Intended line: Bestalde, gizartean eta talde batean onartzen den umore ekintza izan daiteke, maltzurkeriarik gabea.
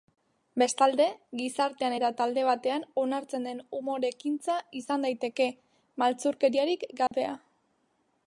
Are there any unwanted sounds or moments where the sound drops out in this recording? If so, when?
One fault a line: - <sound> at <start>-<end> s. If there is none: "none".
- dropout at 7.1-7.1 s